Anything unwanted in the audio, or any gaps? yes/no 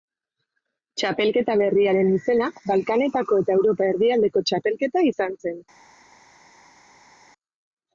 no